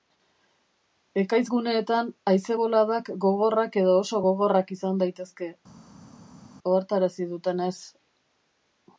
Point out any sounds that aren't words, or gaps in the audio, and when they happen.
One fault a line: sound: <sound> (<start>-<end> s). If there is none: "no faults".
no faults